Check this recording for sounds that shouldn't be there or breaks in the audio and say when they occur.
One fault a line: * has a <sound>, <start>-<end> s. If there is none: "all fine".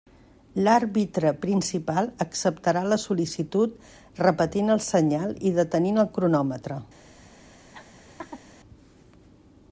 * has a laugh, 7.7-8.4 s